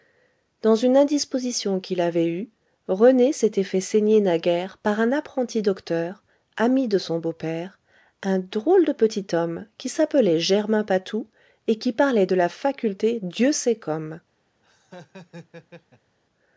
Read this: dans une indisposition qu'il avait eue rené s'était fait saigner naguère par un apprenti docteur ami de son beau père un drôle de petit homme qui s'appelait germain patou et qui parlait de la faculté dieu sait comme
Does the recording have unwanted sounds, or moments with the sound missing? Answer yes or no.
yes